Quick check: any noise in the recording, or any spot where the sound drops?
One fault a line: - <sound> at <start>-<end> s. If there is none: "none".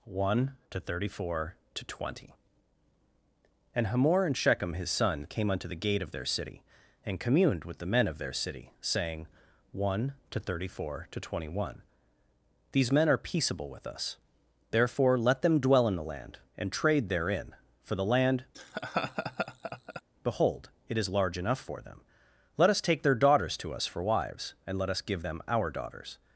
- laugh at 18.5-20.0 s